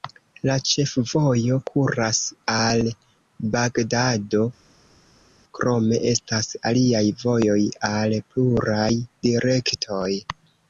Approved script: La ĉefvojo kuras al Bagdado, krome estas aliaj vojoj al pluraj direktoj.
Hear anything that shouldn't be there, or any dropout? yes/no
no